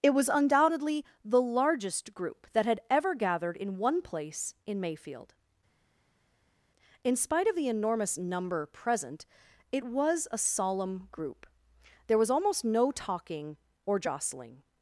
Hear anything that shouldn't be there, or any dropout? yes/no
no